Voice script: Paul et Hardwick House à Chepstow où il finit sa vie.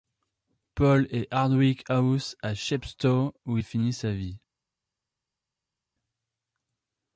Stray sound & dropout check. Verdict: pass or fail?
pass